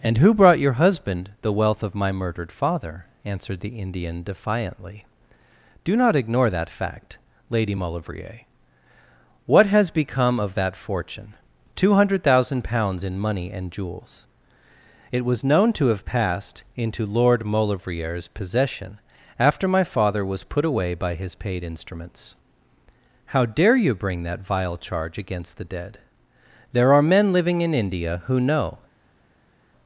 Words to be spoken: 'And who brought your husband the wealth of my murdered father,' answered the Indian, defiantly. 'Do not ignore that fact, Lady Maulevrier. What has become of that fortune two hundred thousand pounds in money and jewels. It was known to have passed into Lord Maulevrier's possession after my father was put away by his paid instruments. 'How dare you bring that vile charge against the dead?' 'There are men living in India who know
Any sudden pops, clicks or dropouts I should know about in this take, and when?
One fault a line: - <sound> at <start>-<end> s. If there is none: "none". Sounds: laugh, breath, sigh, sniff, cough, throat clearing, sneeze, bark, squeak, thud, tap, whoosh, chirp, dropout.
none